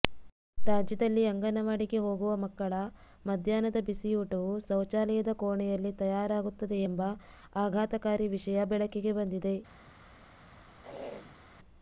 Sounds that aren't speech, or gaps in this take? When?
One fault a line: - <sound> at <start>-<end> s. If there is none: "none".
- throat clearing at 10.8-11.4 s